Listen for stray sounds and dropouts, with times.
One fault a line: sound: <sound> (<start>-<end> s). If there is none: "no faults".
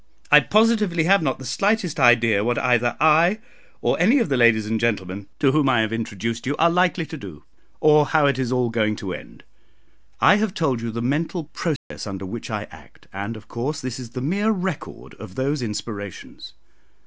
sound: dropout (11.8-11.9 s)